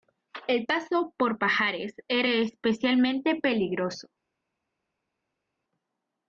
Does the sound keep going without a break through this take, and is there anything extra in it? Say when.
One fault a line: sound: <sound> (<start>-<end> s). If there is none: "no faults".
no faults